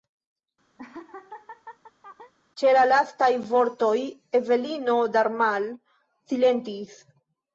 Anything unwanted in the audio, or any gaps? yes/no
yes